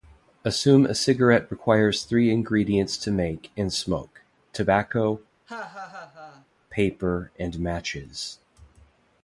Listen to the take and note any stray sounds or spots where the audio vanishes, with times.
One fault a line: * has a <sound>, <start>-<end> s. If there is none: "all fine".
* has a laugh, 5.5-6.5 s